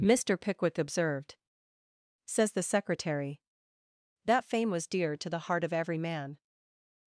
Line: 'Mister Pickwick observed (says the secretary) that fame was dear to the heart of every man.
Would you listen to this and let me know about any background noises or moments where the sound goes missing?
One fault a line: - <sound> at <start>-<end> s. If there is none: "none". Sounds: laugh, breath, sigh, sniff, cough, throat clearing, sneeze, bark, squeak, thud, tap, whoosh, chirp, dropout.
none